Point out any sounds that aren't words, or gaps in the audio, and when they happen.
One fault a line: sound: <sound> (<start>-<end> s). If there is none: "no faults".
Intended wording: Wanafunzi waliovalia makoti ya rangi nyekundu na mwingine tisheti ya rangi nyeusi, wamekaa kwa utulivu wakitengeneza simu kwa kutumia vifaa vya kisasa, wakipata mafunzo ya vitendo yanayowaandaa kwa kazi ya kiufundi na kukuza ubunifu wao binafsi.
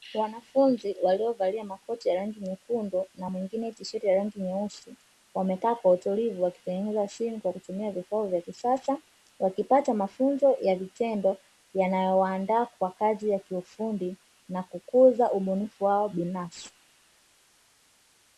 no faults